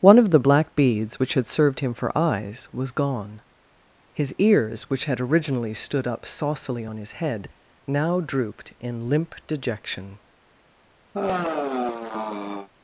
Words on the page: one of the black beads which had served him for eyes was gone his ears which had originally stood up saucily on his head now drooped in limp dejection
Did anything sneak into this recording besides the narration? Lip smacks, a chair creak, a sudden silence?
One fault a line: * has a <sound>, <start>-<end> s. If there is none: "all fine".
* has a sigh, 11.1-12.7 s